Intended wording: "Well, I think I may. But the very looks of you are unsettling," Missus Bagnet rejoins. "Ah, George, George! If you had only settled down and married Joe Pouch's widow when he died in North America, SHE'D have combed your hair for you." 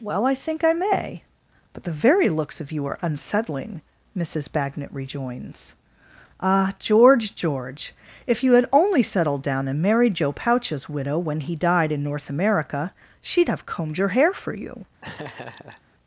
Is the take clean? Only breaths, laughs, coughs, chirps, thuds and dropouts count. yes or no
no